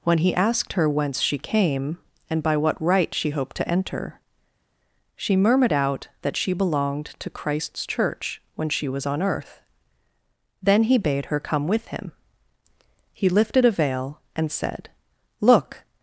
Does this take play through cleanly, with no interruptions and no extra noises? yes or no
yes